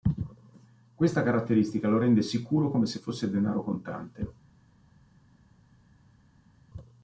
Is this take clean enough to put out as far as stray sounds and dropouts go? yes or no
yes